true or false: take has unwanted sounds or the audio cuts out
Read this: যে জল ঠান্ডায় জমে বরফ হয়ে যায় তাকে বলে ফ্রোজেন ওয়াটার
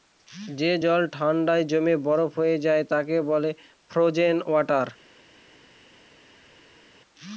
false